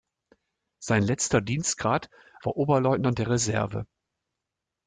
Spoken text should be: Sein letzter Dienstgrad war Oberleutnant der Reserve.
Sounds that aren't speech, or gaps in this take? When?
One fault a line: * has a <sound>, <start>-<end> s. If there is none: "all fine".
all fine